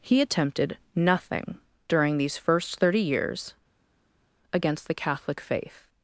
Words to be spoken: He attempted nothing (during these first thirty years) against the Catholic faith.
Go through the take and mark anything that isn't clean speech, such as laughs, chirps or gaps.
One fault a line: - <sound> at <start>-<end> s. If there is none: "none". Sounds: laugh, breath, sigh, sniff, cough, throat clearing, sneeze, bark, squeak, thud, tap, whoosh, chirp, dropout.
none